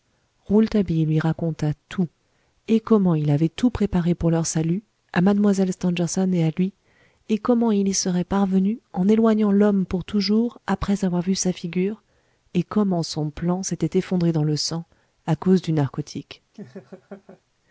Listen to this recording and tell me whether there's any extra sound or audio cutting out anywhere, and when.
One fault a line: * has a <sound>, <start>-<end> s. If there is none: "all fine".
* has a laugh, 16.5-17.4 s